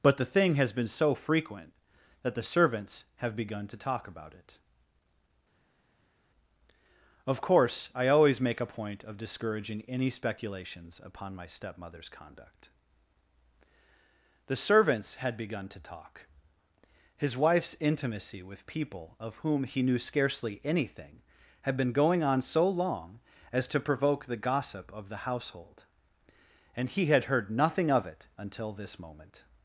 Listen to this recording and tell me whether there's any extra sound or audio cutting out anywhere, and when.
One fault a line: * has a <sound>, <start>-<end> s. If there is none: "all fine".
all fine